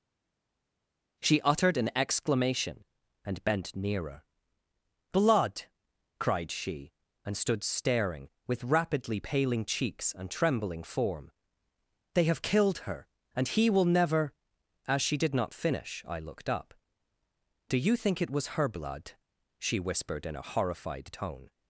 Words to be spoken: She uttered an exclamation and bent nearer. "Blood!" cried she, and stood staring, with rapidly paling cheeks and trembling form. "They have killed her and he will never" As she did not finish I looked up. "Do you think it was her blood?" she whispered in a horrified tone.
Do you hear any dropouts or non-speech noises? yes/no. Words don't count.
no